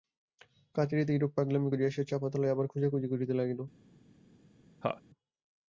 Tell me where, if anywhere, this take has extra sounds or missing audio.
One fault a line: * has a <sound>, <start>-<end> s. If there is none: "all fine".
* has a laugh, 4.8-5.0 s